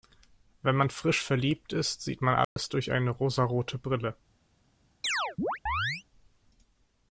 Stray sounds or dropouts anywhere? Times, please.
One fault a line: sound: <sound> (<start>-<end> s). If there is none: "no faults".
sound: dropout (2.4-2.6 s)
sound: chirp (5.0-6.0 s)